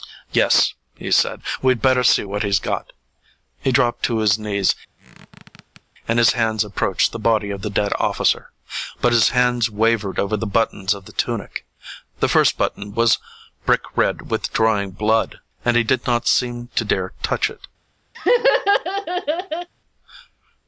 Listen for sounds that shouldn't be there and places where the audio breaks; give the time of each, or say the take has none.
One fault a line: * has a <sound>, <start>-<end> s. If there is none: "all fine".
* has a squeak, 5.0-5.8 s
* has a laugh, 18.1-19.7 s